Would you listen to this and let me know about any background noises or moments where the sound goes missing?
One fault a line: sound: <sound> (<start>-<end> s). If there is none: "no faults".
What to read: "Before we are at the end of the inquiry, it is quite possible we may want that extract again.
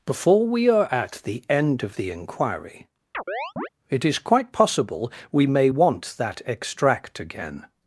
sound: chirp (3.1-3.7 s)